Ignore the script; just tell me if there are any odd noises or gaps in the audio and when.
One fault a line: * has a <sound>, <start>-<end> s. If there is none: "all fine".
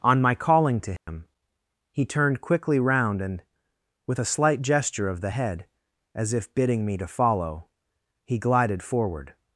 * has a dropout, 1.0-1.1 s